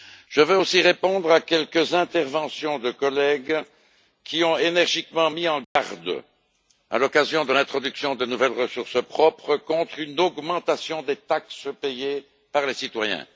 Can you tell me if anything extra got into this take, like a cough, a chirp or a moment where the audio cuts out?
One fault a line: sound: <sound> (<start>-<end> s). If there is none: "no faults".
sound: dropout (5.6-5.8 s)